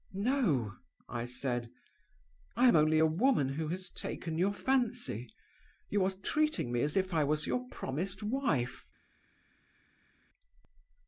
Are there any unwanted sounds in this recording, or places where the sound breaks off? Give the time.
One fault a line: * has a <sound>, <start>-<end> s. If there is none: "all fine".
all fine